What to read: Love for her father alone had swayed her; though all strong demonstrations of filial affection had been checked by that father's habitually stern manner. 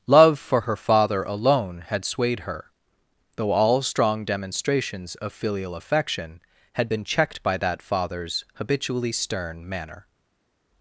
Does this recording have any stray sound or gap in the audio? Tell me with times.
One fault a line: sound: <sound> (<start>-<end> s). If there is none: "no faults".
no faults